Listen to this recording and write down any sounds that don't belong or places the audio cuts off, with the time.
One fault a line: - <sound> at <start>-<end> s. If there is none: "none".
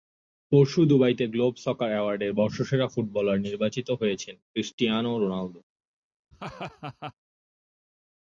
- laugh at 6.3-7.1 s